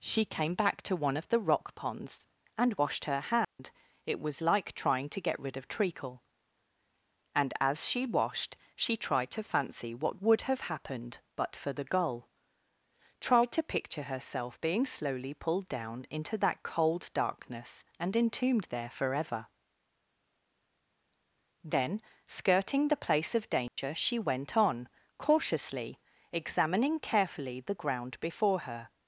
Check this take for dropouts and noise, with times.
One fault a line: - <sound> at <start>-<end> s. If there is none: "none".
- dropout at 3.4-3.6 s
- dropout at 23.7-23.8 s